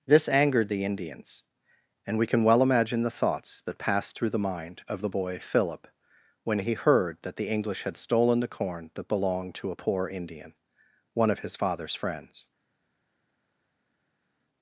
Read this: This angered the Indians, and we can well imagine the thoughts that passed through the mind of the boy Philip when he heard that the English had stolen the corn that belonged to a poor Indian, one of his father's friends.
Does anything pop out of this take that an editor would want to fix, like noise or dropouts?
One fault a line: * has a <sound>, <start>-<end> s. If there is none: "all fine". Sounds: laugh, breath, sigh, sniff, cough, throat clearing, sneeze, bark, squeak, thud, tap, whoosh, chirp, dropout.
all fine